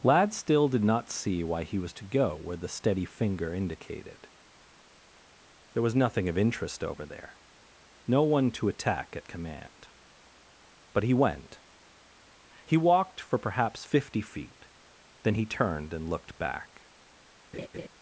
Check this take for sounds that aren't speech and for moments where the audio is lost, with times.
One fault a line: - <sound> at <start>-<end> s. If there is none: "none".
- laugh at 17.5-17.9 s